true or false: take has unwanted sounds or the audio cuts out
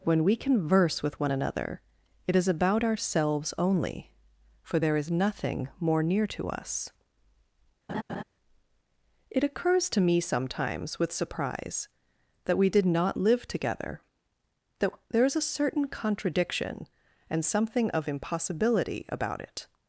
true